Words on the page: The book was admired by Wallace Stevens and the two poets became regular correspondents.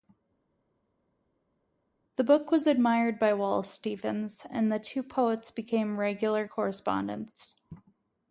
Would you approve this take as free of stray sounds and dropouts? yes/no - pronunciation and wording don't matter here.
yes